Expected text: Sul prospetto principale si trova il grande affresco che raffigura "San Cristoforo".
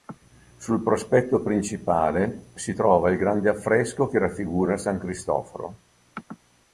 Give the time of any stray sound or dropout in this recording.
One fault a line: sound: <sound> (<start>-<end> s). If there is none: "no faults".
no faults